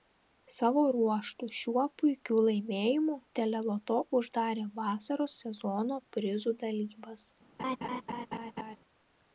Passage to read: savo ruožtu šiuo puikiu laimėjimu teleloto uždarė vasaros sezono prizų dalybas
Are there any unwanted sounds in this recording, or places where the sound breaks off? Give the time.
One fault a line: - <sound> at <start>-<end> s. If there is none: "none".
- laugh at 7.6-8.8 s